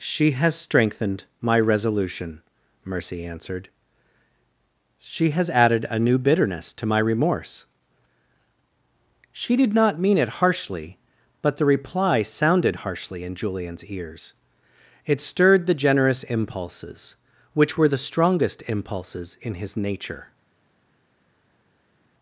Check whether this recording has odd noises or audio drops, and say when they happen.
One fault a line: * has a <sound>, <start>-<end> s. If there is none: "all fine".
all fine